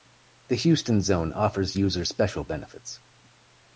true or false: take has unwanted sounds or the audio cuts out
false